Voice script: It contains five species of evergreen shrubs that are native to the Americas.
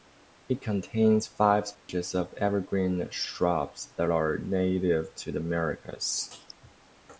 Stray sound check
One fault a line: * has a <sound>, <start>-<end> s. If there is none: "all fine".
* has a dropout, 1.7-1.9 s